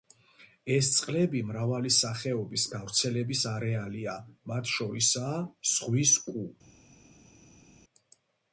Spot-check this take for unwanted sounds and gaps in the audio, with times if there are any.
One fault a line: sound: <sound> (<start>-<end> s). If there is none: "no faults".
no faults